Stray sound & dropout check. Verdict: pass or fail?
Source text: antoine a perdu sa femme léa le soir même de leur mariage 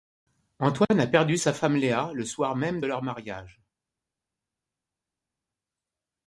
pass